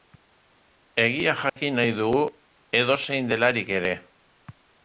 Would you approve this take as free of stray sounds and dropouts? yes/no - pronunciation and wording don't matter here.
no